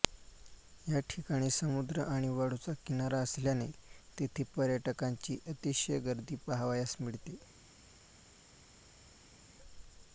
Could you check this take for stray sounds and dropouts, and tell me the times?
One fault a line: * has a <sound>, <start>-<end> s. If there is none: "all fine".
all fine